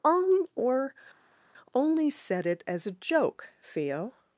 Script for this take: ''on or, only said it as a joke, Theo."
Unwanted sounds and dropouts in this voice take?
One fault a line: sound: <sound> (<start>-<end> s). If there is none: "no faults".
no faults